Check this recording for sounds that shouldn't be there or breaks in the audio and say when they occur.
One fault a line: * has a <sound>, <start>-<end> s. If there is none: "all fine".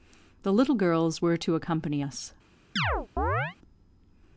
* has a chirp, 2.8-3.6 s